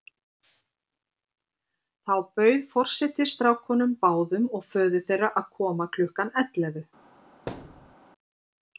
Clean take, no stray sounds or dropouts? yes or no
no